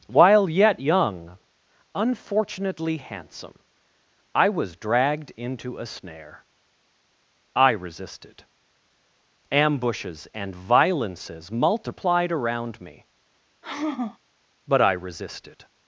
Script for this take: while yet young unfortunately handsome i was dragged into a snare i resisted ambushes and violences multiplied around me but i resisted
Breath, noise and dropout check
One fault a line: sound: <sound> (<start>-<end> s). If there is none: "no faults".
sound: sigh (13.6-14.2 s)